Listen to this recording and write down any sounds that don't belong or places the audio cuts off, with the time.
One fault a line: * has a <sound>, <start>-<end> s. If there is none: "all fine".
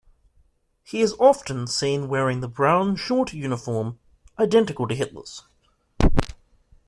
all fine